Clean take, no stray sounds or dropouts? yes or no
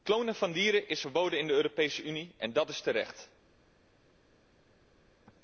yes